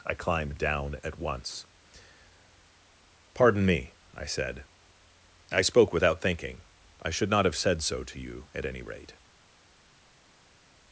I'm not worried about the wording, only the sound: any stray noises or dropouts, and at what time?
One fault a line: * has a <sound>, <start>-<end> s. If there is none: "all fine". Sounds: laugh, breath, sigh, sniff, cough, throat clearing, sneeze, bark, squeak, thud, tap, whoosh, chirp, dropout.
all fine